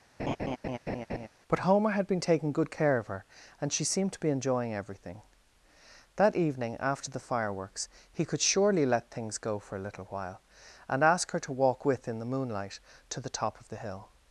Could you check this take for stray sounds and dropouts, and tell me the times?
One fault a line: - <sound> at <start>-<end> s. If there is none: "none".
- laugh at 0.2-1.3 s